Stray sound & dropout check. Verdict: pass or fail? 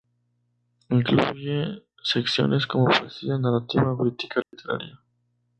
fail